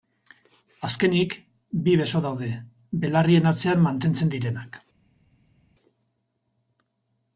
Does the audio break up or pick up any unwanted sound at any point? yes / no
no